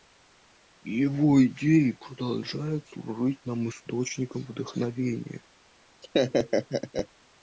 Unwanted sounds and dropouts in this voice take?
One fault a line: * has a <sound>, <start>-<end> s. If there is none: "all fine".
* has a laugh, 6.0-7.1 s